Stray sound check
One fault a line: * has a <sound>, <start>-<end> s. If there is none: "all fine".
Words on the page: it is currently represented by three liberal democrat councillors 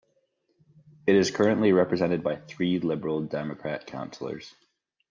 all fine